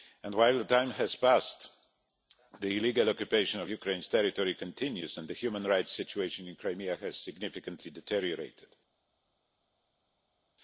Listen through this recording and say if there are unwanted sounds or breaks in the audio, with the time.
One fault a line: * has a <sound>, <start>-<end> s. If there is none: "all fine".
all fine